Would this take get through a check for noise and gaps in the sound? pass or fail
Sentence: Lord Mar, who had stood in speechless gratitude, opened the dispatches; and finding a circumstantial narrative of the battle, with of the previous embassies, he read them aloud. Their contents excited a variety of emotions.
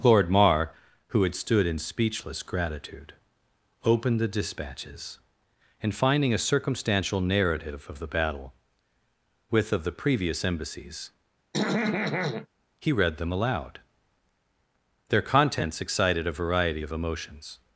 fail